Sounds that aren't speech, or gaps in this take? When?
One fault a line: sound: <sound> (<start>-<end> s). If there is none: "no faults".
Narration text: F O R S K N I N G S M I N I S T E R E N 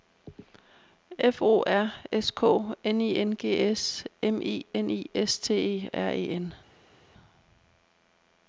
no faults